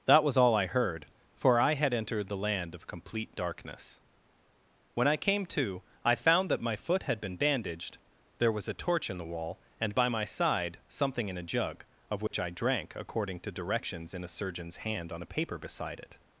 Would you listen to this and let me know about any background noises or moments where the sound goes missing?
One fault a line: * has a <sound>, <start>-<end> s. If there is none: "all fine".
* has a dropout, 12.3-12.3 s